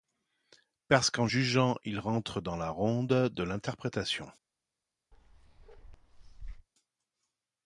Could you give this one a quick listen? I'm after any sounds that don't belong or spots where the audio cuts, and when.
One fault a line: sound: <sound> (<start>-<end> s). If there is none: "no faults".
sound: bark (5.1-6.7 s)